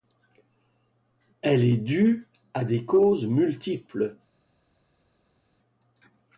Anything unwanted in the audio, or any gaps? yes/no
no